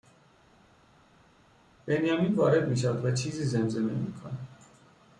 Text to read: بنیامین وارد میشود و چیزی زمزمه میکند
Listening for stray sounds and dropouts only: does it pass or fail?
pass